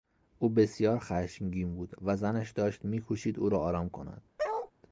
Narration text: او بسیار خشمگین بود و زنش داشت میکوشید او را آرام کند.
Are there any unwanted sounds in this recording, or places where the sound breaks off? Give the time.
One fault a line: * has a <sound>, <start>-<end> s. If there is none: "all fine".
* has a bark, 4.4-4.7 s